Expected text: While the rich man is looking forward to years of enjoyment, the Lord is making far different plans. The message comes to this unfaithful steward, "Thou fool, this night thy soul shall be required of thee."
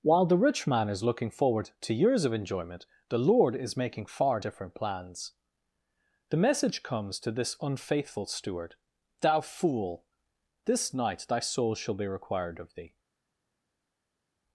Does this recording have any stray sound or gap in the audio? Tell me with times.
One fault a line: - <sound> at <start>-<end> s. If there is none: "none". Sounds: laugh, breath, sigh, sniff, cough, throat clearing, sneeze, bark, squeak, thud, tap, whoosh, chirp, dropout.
none